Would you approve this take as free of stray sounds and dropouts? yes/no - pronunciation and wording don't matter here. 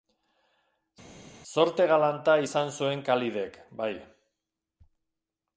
yes